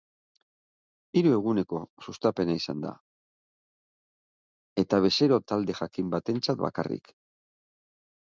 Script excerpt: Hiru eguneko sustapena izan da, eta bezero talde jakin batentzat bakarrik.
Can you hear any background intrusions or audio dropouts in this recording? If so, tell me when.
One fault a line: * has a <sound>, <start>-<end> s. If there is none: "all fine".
all fine